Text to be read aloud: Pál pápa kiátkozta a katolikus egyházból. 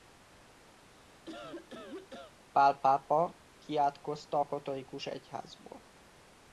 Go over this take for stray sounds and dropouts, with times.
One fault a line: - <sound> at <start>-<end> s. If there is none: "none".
- cough at 0.8-2.3 s